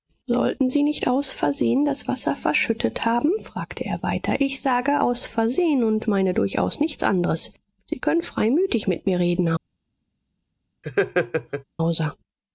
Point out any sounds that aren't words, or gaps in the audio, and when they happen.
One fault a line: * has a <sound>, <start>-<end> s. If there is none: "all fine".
* has a laugh, 10.8-11.6 s